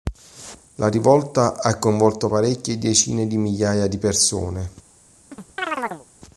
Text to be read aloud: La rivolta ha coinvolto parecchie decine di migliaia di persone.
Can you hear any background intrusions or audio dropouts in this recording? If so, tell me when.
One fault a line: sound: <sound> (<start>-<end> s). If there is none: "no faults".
sound: chirp (5.3-6.1 s)